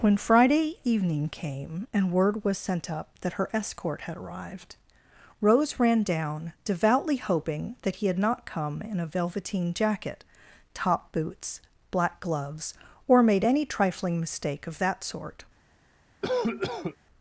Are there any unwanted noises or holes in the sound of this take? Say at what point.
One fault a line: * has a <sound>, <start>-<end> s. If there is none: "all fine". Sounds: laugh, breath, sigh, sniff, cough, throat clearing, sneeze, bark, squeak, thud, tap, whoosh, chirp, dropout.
* has a cough, 16.2-17.0 s